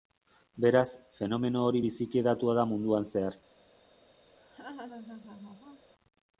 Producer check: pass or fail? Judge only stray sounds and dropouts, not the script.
fail